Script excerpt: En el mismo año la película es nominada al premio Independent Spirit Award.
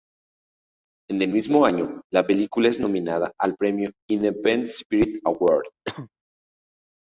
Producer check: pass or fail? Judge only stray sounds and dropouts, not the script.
fail